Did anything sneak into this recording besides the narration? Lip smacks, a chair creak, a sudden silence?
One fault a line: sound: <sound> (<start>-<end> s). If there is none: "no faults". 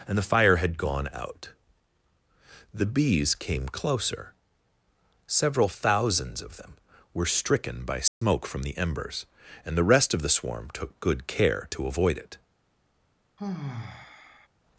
sound: dropout (8.1-8.2 s)
sound: sigh (13.4-14.5 s)